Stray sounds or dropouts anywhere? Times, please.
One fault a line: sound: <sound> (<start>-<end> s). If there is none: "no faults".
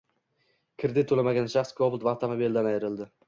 no faults